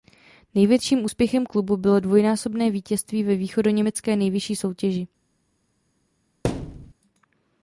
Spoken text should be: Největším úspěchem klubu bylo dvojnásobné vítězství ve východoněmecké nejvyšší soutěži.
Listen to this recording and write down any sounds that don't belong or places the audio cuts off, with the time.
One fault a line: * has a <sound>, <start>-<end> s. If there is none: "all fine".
* has a thud, 6.4-6.9 s